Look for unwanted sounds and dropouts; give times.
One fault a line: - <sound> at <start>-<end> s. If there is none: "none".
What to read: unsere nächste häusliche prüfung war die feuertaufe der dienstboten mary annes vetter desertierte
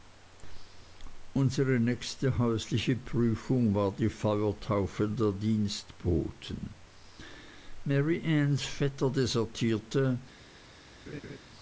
- laugh at 11.1-11.4 s